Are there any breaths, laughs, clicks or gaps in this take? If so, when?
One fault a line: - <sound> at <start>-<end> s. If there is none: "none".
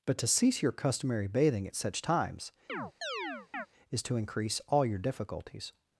- chirp at 2.7-3.7 s